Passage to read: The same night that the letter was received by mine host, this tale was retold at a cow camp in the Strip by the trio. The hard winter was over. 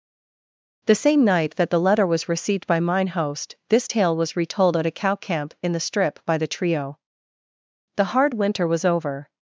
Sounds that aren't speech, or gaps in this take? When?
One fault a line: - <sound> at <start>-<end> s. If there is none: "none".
none